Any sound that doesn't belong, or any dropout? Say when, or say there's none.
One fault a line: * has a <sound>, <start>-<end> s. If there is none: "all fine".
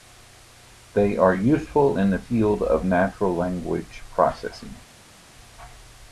all fine